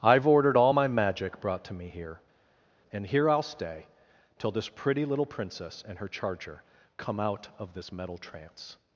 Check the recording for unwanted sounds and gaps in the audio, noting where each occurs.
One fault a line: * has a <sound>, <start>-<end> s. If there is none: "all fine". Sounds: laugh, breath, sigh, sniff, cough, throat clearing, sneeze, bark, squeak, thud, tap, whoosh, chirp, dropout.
all fine